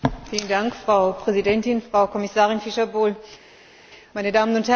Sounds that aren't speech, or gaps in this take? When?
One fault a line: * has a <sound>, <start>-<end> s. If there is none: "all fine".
all fine